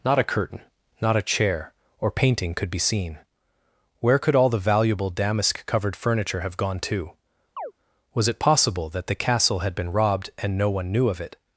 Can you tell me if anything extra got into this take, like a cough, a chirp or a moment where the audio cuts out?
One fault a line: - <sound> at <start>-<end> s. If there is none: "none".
- chirp at 7.6-7.7 s